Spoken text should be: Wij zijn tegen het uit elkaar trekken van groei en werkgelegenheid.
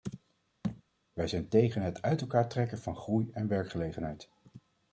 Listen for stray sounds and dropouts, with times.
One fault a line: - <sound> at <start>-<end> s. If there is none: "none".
- thud at 0.6-0.8 s